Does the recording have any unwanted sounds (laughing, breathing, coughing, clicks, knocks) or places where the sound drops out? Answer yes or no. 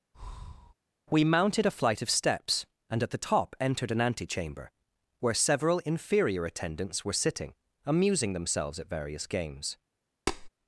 yes